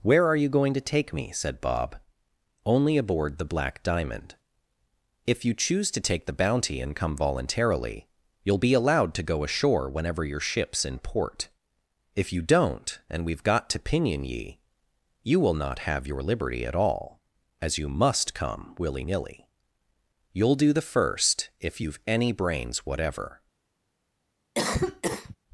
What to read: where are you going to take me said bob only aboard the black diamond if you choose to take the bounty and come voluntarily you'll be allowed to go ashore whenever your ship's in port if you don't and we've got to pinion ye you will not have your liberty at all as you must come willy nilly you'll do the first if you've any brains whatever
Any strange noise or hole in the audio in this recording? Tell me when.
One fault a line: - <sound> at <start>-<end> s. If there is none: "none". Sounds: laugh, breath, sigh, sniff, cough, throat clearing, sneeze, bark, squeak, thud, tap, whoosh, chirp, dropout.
- cough at 24.5-25.4 s